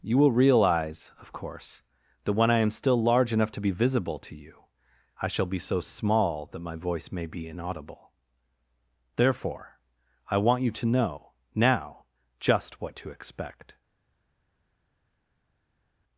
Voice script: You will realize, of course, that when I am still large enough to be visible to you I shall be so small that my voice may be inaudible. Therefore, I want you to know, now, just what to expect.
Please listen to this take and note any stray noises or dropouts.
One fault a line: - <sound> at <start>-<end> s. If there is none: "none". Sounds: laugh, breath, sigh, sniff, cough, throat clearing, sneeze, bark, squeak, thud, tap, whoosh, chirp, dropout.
none